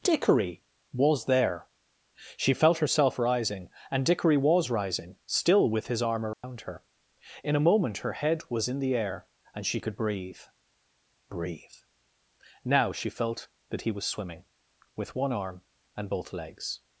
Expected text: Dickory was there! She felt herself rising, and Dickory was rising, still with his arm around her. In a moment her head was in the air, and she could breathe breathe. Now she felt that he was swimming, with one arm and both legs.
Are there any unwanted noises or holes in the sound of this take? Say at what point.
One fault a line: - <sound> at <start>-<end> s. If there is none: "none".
- dropout at 6.3-6.4 s